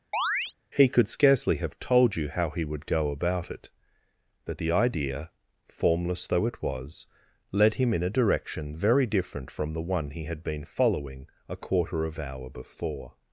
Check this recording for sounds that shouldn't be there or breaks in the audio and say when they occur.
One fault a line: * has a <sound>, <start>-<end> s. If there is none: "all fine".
* has a chirp, 0.1-0.5 s